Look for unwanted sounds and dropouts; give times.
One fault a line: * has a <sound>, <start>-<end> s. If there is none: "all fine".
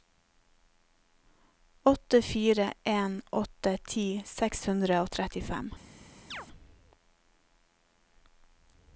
* has a chirp, 6.3-6.5 s